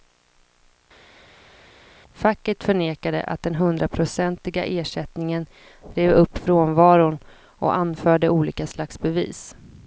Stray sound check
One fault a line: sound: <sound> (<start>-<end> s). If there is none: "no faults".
no faults